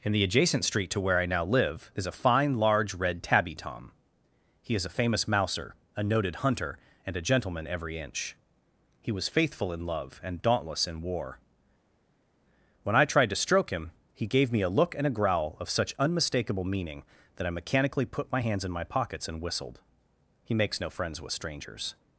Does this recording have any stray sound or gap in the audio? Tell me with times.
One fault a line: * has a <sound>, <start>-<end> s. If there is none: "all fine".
all fine